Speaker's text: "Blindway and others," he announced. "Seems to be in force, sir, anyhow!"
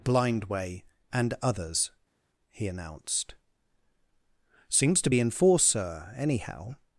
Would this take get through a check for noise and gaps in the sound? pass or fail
pass